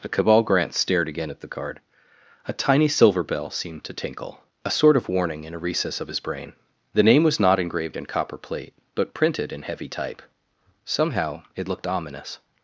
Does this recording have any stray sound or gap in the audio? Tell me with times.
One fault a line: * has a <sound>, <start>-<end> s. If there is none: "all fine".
all fine